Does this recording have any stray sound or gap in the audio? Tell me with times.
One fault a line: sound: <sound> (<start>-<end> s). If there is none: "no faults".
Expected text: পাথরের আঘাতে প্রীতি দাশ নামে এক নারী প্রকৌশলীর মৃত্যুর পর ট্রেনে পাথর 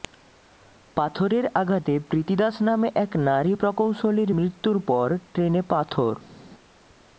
no faults